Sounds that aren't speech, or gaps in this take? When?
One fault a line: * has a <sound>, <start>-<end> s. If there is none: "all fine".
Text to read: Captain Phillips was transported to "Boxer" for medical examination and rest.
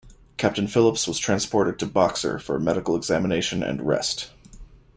all fine